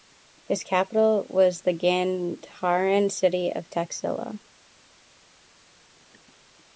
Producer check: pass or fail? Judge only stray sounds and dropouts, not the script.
pass